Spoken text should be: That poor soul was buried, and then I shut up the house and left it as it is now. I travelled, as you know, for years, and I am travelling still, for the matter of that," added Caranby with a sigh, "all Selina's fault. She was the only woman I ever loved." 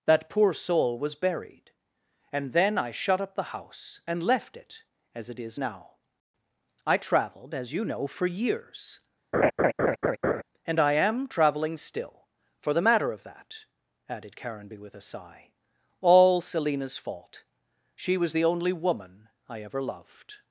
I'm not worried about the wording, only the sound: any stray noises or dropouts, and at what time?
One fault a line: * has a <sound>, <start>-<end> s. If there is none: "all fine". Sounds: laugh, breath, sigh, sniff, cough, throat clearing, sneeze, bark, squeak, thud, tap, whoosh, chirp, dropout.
* has a laugh, 9.3-10.4 s